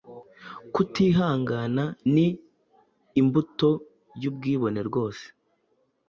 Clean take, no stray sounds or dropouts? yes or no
yes